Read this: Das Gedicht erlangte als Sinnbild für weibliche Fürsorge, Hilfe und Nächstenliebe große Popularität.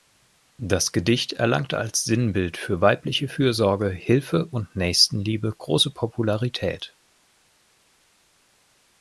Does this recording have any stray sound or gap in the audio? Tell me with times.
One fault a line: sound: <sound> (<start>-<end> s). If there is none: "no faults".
no faults